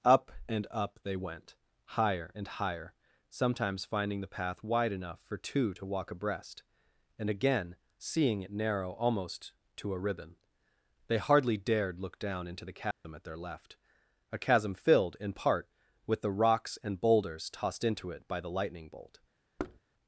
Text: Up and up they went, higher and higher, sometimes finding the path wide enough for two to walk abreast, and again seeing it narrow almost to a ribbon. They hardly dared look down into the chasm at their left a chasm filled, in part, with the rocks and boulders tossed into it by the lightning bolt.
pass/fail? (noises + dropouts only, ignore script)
fail